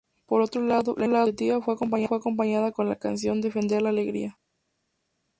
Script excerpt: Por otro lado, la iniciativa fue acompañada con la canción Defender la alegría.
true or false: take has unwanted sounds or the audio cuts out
false